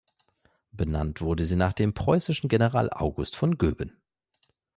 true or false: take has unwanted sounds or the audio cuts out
false